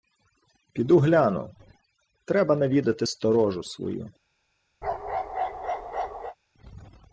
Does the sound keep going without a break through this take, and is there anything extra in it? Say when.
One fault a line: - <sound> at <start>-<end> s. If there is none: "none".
- bark at 4.8-6.4 s